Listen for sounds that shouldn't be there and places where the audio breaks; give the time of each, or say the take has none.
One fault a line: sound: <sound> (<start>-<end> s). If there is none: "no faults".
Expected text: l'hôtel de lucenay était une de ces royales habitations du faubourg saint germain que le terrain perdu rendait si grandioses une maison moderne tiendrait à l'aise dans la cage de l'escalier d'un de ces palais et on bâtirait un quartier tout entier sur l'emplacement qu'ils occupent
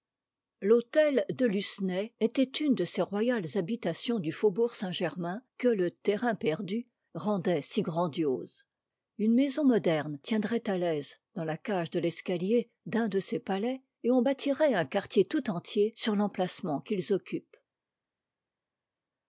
no faults